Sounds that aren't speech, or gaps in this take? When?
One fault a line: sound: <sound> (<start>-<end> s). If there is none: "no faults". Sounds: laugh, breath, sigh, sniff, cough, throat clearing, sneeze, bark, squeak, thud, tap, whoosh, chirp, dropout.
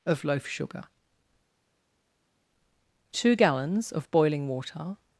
no faults